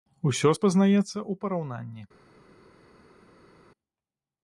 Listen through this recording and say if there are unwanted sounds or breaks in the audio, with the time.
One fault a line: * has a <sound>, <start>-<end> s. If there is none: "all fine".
all fine